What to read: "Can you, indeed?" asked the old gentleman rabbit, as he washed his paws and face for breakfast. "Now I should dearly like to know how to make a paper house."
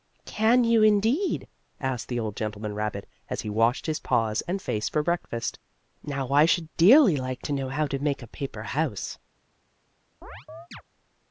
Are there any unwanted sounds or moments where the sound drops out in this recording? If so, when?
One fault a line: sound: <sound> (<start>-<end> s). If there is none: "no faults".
sound: chirp (10.2-10.8 s)